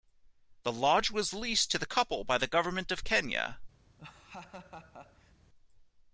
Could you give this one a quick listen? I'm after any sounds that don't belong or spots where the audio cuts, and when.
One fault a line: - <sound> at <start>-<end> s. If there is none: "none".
- laugh at 4.0-5.3 s